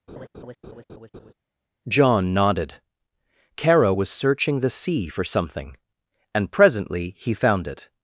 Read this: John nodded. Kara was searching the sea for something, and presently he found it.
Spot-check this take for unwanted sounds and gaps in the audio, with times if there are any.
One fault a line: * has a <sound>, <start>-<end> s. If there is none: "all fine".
* has a laugh, 0.1-1.3 s